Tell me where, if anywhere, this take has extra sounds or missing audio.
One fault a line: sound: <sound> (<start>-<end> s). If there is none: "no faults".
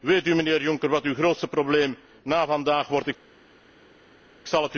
no faults